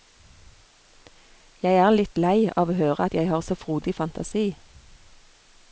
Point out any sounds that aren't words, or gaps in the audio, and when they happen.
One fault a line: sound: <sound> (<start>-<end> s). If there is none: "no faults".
no faults